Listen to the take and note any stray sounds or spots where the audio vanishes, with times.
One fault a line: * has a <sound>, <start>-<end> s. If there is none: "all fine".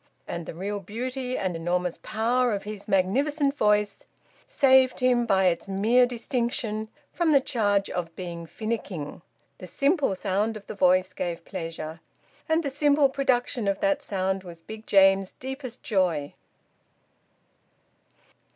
all fine